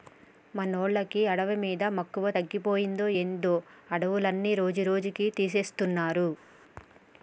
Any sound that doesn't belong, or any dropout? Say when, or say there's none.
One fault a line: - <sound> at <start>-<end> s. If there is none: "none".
none